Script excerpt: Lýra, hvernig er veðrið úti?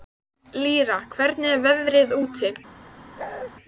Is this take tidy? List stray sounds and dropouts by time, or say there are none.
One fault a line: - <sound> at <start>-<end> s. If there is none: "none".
- bark at 3.2-3.5 s